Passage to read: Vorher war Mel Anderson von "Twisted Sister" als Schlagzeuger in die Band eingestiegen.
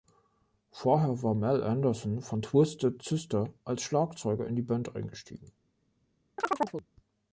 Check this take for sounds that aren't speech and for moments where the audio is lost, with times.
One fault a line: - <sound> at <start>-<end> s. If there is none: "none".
- chirp at 6.4-6.9 s